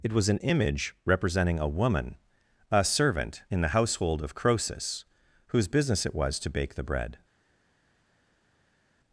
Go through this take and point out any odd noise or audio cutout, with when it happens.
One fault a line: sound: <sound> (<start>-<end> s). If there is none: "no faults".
no faults